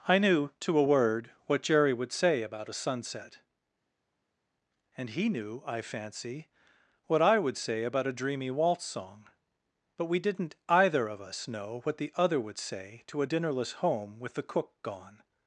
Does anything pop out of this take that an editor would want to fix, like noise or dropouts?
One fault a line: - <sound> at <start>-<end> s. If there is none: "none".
none